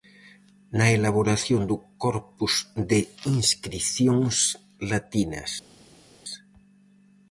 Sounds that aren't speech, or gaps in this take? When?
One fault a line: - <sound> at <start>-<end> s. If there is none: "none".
none